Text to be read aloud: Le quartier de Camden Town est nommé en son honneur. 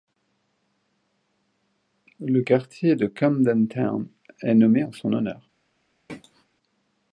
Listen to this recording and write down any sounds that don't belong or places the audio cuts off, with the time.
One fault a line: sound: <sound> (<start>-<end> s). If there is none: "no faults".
sound: throat clearing (6.1-6.5 s)